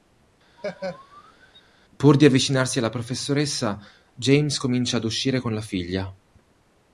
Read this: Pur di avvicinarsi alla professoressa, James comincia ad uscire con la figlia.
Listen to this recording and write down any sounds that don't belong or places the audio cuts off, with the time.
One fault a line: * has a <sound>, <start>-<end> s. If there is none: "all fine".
* has a laugh, 0.6-1.6 s